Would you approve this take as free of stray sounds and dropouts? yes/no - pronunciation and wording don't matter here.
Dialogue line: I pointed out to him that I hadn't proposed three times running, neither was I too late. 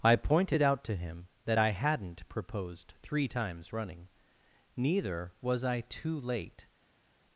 yes